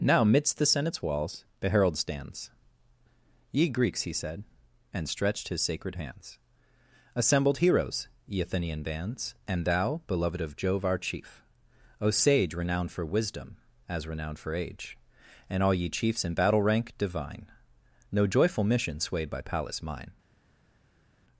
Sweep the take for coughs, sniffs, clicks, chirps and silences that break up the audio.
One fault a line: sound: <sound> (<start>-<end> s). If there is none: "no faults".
no faults